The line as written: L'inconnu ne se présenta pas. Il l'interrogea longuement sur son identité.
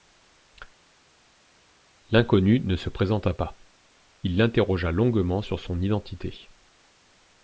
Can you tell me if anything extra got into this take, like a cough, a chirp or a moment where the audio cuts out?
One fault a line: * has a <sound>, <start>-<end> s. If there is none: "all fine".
all fine